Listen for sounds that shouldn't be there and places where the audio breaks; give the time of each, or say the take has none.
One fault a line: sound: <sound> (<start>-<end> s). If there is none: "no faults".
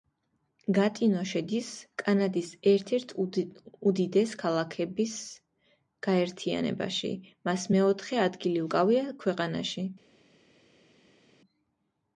no faults